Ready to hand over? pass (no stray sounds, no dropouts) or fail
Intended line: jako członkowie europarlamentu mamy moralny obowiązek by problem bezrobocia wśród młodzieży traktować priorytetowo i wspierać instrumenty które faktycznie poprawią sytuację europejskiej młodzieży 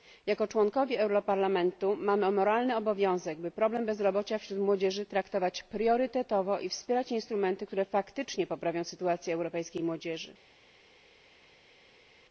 pass